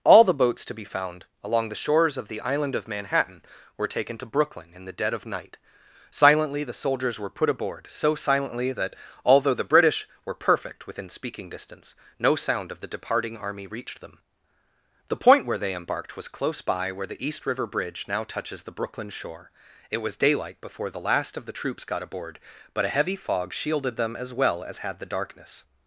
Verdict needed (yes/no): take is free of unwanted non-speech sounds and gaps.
yes